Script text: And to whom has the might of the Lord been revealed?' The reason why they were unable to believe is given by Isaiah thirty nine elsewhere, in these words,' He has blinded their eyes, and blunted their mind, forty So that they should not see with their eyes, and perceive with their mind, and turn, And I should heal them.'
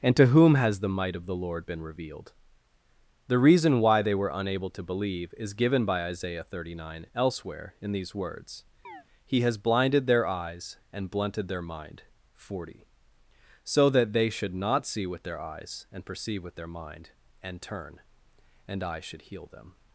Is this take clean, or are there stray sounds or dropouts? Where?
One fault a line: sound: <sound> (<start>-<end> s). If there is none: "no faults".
sound: chirp (8.8-9.0 s)